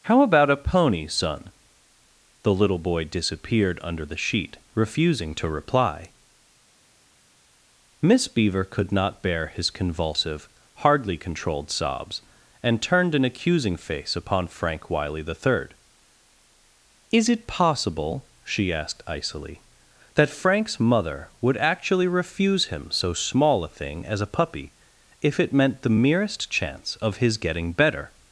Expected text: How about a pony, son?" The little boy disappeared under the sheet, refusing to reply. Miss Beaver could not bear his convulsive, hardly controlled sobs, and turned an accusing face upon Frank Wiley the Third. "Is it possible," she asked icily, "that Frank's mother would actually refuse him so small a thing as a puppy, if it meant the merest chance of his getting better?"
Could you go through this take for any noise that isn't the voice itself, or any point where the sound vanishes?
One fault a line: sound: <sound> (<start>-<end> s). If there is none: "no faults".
no faults